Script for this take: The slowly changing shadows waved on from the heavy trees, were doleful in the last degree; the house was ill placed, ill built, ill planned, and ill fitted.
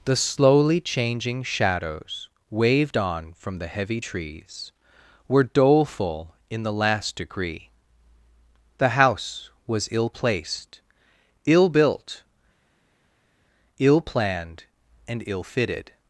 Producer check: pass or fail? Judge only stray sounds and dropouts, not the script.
pass